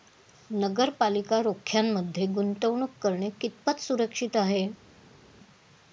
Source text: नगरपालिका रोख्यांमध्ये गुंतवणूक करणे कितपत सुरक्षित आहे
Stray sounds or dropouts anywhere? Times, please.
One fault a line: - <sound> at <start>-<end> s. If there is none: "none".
none